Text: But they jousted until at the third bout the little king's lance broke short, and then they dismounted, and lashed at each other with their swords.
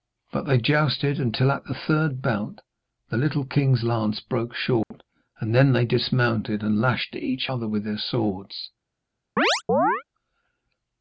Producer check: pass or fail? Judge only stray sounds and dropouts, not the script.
fail